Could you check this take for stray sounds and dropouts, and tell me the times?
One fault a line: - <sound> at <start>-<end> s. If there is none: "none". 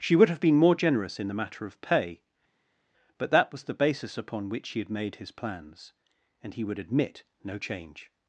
none